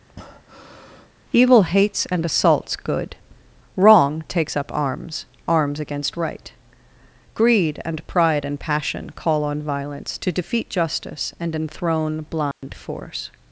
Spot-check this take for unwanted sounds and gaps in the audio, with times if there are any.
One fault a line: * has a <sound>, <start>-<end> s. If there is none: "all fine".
* has a breath, 0.1-1.1 s
* has a dropout, 12.5-12.6 s